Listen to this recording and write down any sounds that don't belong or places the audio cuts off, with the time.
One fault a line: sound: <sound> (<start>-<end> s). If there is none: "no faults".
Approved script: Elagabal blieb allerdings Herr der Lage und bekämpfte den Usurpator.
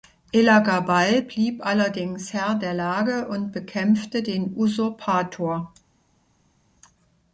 no faults